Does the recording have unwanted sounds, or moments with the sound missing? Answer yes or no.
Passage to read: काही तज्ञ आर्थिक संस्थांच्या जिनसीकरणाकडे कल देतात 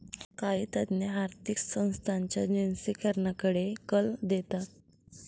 no